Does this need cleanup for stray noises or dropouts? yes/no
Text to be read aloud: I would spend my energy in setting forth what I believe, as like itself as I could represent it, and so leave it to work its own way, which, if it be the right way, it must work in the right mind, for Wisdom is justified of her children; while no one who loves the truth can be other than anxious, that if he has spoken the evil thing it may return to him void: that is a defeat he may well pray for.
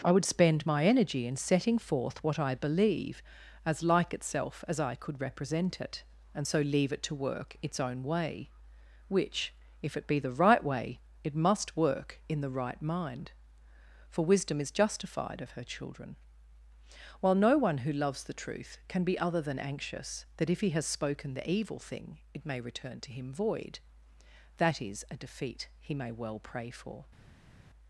no